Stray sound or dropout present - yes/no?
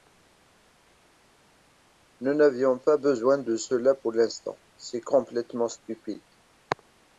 no